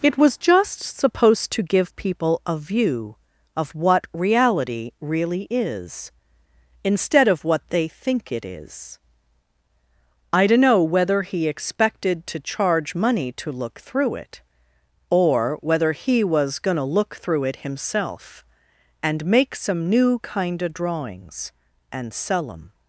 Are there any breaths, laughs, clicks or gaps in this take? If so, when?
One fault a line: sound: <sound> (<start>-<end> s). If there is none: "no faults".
no faults